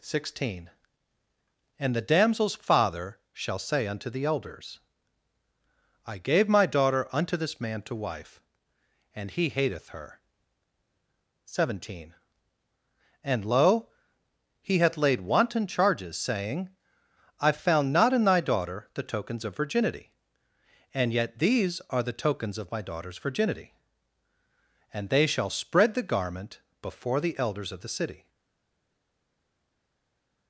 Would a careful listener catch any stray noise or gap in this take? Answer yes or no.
no